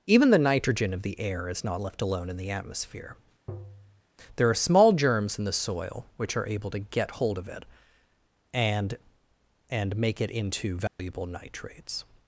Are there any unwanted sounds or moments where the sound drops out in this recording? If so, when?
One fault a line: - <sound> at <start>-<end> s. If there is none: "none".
- tap at 3.5-4.0 s
- dropout at 10.9-11.0 s